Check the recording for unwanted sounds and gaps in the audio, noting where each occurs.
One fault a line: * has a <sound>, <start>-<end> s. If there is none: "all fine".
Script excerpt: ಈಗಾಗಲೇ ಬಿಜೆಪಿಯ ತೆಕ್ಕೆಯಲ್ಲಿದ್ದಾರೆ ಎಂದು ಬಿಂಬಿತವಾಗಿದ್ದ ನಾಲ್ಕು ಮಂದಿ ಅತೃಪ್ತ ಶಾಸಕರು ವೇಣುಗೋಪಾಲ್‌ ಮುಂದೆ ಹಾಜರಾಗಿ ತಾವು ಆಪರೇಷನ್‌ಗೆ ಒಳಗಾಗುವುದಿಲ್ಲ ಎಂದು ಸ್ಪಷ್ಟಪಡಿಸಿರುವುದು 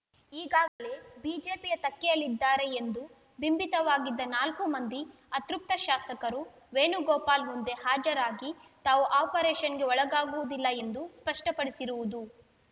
* has a dropout, 0.7-0.8 s